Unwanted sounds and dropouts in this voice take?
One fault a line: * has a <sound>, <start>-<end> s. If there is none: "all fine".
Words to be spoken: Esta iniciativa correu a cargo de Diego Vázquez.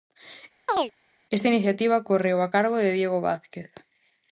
* has a chirp, 0.7-0.9 s